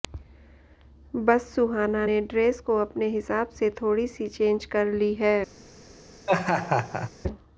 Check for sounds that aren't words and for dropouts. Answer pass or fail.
fail